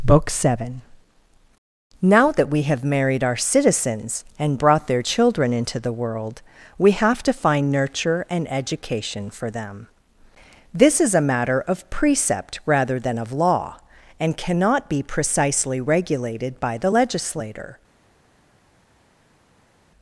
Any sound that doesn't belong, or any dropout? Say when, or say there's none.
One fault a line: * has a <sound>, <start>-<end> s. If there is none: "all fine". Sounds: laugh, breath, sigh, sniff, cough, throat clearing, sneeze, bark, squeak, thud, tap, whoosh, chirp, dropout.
all fine